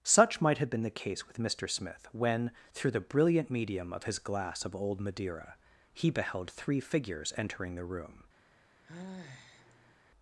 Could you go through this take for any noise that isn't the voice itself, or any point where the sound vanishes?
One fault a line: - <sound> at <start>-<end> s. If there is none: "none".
- sigh at 8.8-10.0 s